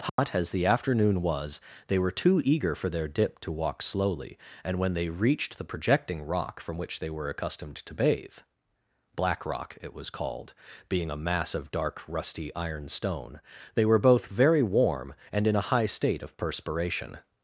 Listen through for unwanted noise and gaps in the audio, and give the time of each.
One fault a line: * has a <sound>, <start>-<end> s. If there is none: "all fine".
* has a dropout, 0.1-0.2 s